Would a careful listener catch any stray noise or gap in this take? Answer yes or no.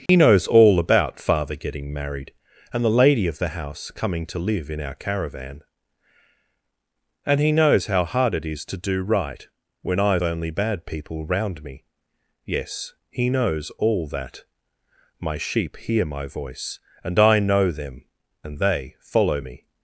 yes